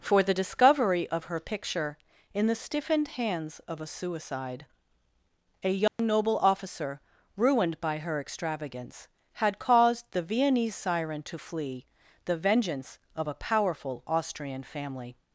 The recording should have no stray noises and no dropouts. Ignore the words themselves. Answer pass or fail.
fail